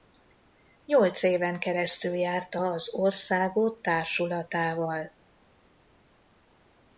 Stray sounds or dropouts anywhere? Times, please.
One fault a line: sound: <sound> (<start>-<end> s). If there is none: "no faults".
no faults